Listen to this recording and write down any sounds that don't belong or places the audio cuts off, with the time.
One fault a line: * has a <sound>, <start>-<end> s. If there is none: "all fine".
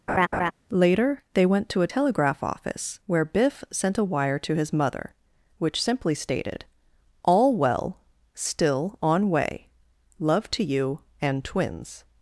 * has a laugh, 0.1-0.5 s